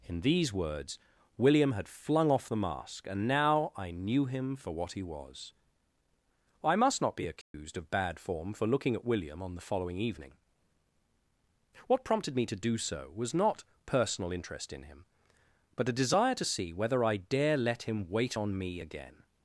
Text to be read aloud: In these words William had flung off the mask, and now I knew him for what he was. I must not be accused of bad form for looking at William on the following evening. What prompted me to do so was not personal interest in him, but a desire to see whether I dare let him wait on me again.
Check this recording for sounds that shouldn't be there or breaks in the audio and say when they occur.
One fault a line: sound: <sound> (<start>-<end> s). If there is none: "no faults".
sound: dropout (7.4-7.5 s)